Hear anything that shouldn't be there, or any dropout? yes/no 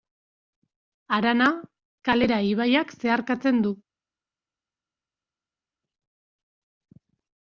no